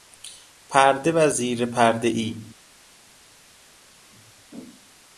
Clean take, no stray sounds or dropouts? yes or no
yes